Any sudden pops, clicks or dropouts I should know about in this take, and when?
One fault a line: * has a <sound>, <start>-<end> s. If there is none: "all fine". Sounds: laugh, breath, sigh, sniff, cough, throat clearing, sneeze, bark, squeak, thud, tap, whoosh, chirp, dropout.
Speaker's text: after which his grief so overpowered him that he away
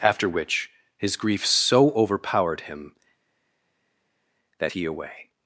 all fine